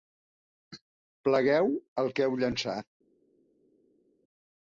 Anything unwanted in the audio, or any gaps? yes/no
no